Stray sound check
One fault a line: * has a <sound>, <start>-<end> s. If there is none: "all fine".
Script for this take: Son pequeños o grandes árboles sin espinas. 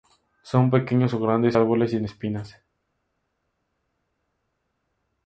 all fine